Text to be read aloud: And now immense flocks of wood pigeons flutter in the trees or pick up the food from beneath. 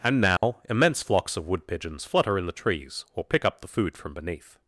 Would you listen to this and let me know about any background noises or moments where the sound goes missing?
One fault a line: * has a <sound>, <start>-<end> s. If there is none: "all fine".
* has a dropout, 0.4-0.4 s